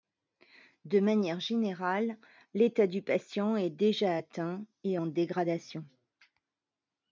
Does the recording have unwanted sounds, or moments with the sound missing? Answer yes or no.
no